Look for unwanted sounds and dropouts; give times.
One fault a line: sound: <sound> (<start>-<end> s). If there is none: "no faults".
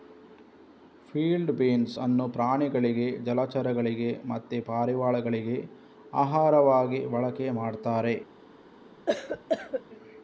sound: cough (9.1-9.8 s)